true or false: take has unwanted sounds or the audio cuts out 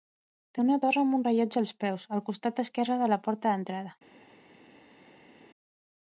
false